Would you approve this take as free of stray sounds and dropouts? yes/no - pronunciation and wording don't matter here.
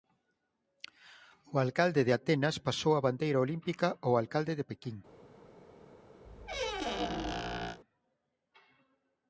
no